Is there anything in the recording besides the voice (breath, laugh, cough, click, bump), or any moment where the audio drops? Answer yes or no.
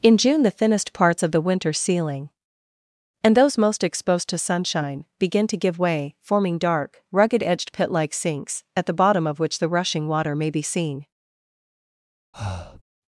yes